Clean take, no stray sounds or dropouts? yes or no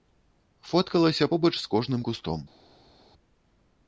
yes